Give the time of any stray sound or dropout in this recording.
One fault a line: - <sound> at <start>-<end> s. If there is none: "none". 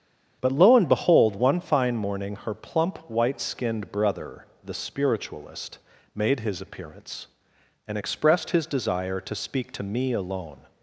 none